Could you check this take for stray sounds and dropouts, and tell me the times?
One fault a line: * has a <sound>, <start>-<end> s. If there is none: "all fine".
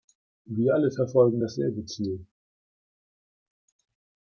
all fine